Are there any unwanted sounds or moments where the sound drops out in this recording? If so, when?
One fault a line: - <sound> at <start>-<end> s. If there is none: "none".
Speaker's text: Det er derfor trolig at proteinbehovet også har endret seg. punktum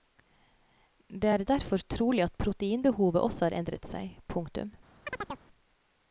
- chirp at 5.1-5.4 s